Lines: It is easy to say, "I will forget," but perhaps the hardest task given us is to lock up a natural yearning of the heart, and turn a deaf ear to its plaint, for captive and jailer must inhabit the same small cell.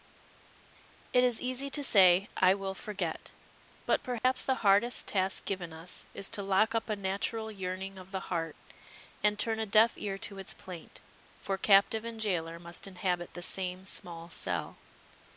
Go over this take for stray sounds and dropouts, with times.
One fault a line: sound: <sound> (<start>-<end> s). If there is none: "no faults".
sound: dropout (4.2-4.2 s)